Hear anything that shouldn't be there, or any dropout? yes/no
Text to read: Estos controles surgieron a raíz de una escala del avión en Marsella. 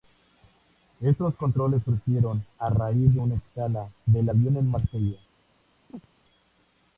yes